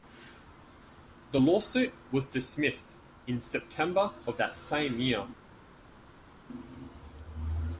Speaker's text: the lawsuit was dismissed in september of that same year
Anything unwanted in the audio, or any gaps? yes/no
no